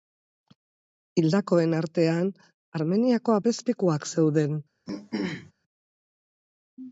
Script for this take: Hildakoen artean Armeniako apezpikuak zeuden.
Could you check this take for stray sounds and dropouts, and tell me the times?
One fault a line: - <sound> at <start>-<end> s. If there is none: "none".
- throat clearing at 4.9-5.5 s